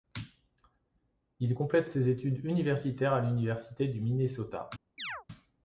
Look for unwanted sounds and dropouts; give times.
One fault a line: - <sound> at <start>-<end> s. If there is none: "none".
- chirp at 5.0-5.2 s